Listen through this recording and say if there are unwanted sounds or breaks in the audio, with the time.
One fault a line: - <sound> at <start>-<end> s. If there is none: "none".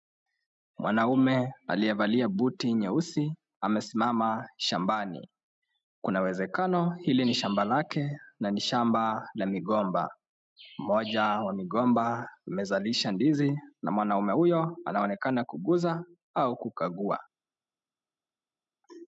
none